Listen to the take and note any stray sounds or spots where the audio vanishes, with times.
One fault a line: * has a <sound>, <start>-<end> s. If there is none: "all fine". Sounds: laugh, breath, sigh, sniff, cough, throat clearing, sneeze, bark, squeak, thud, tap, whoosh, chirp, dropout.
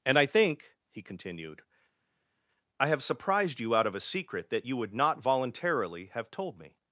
all fine